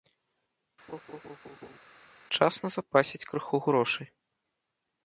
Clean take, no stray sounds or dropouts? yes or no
no